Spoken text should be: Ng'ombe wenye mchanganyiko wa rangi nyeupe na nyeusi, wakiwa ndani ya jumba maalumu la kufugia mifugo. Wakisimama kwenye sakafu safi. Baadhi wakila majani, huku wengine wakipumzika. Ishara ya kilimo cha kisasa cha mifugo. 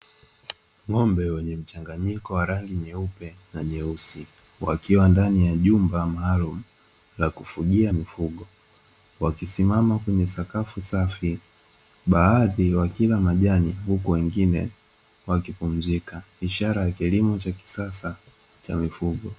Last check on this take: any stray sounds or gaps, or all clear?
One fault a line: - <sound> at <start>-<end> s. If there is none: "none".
none